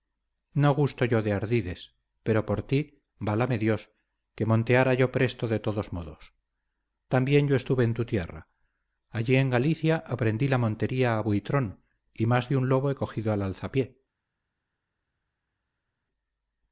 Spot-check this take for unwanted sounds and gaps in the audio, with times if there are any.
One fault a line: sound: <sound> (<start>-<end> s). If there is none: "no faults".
no faults